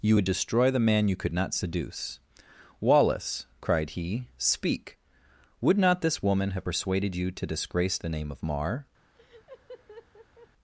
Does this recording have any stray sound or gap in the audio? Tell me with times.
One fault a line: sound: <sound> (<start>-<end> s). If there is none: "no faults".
sound: laugh (9.2-10.5 s)